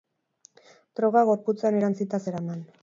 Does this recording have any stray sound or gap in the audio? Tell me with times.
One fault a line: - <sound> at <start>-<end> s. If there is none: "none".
none